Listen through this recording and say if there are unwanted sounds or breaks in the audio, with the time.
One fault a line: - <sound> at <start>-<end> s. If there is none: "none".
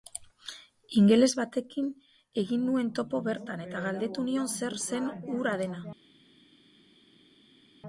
none